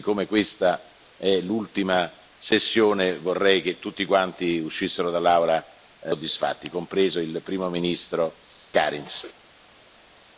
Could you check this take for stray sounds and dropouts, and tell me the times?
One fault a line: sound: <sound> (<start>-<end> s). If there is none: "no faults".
no faults